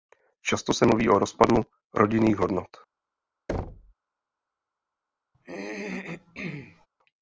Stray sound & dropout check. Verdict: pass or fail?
fail